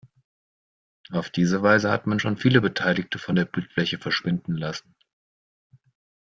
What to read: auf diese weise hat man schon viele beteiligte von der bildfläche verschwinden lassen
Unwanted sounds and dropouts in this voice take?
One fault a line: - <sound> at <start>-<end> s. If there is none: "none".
none